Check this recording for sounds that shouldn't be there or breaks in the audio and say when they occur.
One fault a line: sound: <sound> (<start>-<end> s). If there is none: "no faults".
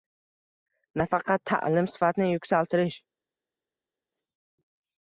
no faults